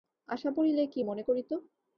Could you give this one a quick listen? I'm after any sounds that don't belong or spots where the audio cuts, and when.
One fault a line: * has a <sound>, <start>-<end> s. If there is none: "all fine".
all fine